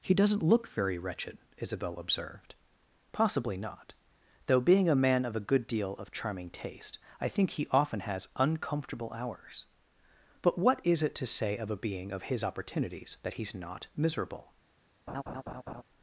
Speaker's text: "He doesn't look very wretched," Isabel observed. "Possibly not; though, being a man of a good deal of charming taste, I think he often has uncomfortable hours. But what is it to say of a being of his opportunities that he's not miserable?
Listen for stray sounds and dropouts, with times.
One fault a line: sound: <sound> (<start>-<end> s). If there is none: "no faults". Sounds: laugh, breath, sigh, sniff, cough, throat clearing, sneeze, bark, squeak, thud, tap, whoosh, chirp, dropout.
sound: laugh (15.1-15.8 s)